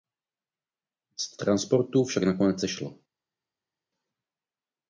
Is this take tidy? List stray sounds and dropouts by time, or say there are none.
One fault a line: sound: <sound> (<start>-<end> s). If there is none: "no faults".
no faults